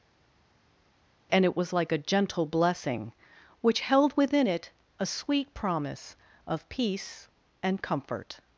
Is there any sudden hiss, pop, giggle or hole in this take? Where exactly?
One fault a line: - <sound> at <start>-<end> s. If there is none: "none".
none